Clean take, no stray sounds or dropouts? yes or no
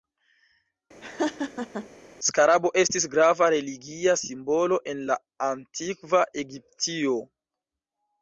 no